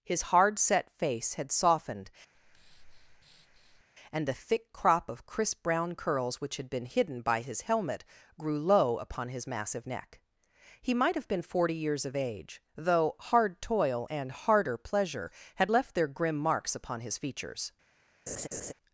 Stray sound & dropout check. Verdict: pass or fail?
fail